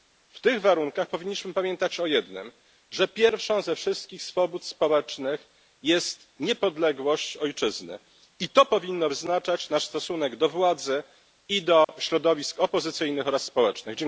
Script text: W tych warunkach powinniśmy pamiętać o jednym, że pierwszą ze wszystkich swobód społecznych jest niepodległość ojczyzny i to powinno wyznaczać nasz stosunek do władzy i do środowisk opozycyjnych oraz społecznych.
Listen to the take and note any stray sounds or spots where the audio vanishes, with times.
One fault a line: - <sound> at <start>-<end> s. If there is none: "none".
- dropout at 11.8-11.9 s